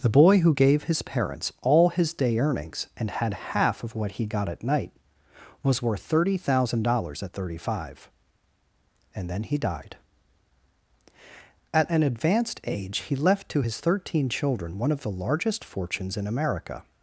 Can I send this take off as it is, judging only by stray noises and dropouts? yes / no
yes